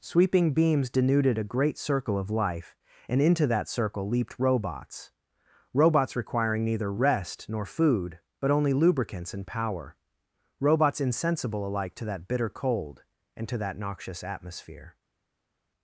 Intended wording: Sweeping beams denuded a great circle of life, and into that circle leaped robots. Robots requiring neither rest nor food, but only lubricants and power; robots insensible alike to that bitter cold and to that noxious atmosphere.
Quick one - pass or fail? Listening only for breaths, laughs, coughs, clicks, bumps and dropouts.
pass